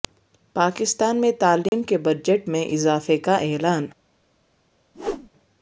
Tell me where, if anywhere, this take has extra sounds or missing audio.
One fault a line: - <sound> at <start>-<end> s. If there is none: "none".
- dropout at 1.7-1.7 s
- whoosh at 4.9-5.3 s